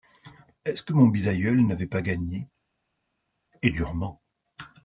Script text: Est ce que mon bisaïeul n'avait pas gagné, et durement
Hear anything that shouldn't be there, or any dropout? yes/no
no